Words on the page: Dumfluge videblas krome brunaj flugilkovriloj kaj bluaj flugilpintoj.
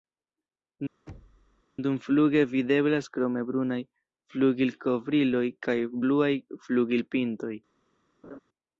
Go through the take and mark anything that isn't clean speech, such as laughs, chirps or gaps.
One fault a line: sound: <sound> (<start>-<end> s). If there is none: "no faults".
sound: thud (1.1-1.6 s)
sound: laugh (8.2-8.4 s)